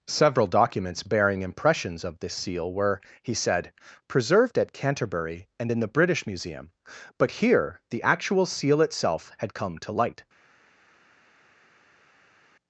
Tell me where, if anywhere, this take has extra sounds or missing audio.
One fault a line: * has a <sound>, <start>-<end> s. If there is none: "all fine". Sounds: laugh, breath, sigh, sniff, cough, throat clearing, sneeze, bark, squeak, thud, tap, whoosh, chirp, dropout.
all fine